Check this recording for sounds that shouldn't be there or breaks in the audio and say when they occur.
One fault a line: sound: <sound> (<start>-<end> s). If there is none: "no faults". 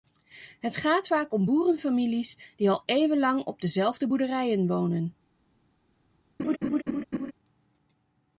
sound: laugh (6.4-7.3 s)